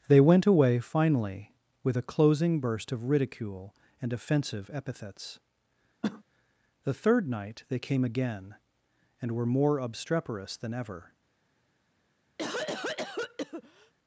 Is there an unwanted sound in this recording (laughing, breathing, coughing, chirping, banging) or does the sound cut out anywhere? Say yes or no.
yes